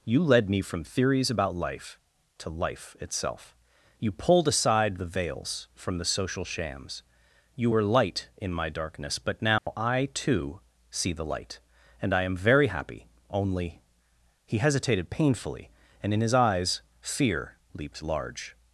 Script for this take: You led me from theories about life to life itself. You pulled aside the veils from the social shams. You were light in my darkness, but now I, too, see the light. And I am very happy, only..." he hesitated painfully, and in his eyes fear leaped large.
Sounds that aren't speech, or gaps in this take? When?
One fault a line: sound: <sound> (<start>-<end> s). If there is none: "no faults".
sound: dropout (9.6-9.7 s)